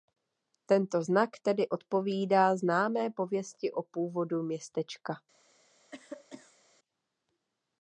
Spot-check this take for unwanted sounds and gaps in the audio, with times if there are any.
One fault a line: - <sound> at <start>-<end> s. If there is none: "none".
- cough at 5.9-6.6 s